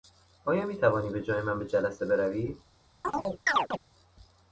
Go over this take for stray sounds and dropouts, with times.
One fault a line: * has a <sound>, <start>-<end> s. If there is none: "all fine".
* has a chirp, 3.0-3.8 s